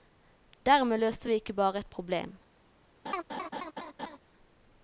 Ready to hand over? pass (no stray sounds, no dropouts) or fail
fail